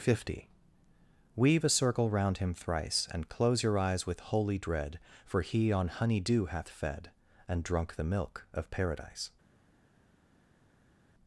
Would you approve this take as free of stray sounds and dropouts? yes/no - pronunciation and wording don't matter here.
yes